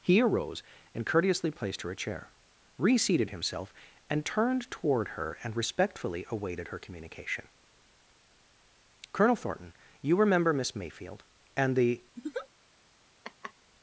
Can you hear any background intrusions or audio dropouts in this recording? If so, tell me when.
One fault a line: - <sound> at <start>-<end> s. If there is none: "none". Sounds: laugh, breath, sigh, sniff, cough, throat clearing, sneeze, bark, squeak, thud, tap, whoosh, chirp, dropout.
- laugh at 12.2-12.5 s
- laugh at 13.2-13.5 s